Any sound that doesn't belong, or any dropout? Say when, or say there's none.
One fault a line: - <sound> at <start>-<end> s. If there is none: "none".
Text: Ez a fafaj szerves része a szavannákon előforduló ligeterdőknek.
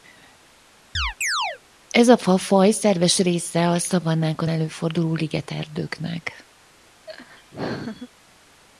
- chirp at 0.9-1.6 s
- laugh at 7.1-8.1 s